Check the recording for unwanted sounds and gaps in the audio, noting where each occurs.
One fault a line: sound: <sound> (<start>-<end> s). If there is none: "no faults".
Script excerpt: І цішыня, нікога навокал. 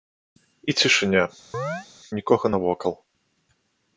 sound: chirp (1.5-1.9 s)